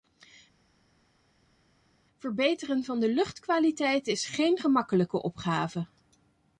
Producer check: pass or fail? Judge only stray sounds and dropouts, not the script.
pass